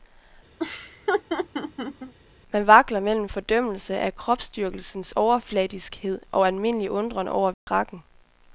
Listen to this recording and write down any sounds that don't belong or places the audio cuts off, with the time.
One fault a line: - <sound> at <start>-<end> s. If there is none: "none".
- laugh at 0.6-2.1 s
- dropout at 7.5-7.7 s